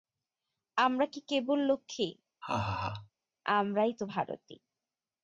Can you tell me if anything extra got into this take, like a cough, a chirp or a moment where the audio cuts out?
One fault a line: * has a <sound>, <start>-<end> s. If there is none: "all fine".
* has a laugh, 2.4-3.1 s